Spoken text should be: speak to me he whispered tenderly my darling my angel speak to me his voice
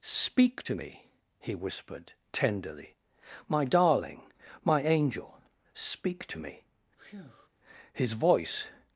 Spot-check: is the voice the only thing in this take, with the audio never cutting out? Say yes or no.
no